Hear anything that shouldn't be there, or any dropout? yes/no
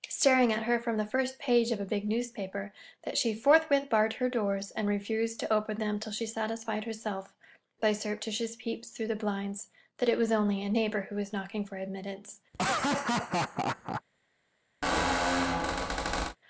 yes